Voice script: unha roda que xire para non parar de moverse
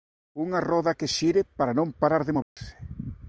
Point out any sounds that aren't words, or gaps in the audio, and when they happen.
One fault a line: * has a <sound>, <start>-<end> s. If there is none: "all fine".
* has a dropout, 2.4-2.6 s